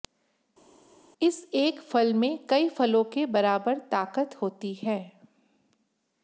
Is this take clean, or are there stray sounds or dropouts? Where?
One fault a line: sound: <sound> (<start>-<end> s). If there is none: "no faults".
no faults